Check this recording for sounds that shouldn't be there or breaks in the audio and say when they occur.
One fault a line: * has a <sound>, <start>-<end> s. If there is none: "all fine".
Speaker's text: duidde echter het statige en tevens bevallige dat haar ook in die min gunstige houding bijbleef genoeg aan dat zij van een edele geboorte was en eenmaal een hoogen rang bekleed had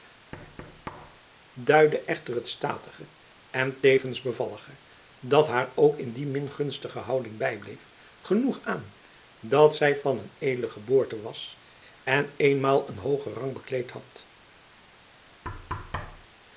* has a thud, 0.3-1.2 s
* has a thud, 15.4-16.3 s